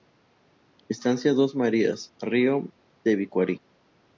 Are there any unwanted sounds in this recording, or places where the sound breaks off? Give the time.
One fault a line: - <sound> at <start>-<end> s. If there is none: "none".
none